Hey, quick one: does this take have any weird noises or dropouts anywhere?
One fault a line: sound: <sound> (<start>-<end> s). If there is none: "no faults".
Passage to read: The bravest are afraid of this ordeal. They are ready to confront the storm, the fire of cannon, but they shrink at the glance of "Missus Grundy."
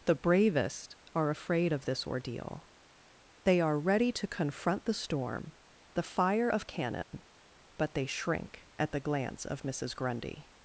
sound: dropout (7.0-7.1 s)